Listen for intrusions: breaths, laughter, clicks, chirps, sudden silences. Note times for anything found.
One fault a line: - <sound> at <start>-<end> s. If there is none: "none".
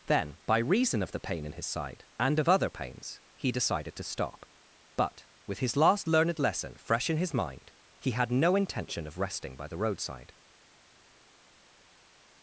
none